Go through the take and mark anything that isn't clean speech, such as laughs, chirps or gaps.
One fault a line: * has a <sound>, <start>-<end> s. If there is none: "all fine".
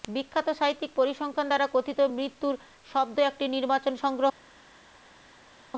all fine